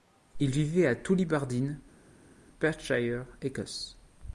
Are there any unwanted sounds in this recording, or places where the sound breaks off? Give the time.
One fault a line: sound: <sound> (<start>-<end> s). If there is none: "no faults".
no faults